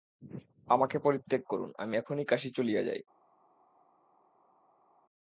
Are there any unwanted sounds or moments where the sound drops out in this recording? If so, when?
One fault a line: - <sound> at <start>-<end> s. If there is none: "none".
none